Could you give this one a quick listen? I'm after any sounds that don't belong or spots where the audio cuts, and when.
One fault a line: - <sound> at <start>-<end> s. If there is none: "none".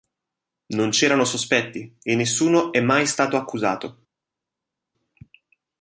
none